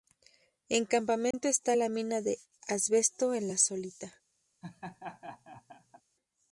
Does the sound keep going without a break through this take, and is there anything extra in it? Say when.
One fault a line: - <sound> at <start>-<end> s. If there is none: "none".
- dropout at 1.3-1.3 s
- laugh at 4.6-6.0 s